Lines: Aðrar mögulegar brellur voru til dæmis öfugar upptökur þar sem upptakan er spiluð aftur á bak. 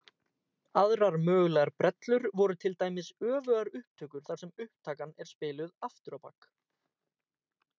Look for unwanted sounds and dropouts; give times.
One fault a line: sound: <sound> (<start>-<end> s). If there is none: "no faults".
no faults